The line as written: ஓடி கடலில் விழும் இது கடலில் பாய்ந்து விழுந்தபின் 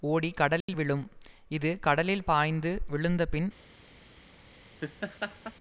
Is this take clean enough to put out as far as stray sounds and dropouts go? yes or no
no